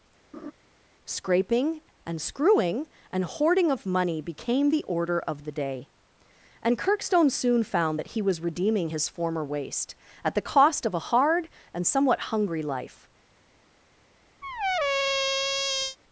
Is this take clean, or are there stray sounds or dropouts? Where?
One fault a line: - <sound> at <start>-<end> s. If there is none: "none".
- laugh at 0.3-0.5 s
- squeak at 14.4-16.0 s